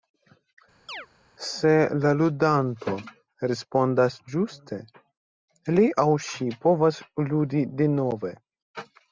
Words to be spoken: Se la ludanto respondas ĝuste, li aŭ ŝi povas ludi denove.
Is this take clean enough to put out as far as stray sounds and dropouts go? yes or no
no